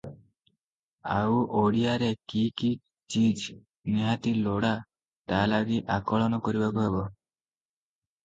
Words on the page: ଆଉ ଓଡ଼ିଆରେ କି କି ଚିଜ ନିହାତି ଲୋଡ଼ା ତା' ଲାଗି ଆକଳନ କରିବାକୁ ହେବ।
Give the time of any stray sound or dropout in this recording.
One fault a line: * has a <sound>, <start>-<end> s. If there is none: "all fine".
all fine